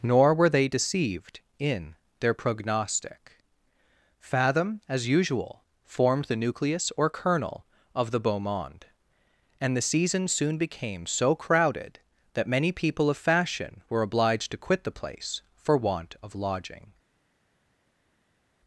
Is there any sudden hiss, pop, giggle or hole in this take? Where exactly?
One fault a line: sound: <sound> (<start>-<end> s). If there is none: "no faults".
no faults